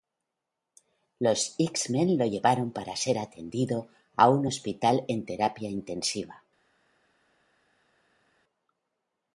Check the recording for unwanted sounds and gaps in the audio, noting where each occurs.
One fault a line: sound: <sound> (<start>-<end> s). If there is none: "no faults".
no faults